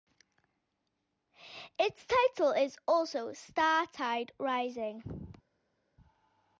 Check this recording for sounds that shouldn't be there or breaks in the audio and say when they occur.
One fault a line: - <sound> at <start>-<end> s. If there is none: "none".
none